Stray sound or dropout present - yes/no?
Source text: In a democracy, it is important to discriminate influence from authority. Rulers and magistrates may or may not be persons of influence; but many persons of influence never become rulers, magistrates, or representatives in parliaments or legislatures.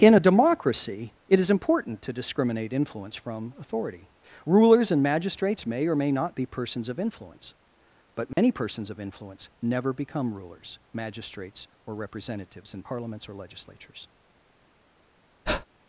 yes